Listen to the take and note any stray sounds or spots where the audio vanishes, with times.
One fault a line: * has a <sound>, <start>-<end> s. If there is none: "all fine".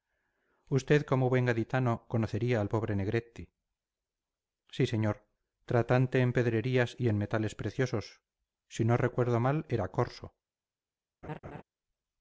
* has a laugh, 11.2-11.6 s